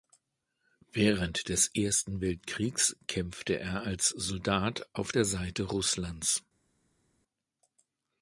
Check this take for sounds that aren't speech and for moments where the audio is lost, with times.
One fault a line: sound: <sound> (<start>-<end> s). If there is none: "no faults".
no faults